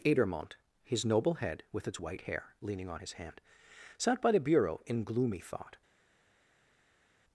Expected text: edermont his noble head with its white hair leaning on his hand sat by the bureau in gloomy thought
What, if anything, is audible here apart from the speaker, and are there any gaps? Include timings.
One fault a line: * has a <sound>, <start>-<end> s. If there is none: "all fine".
all fine